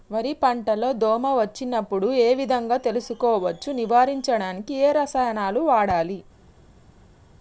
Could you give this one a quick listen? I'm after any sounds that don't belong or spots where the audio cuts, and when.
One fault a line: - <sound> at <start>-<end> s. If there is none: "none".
none